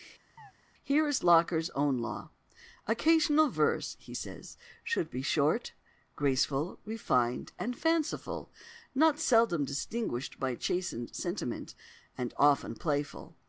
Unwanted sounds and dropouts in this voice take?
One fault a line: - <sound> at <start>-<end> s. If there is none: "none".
- chirp at 0.4-0.5 s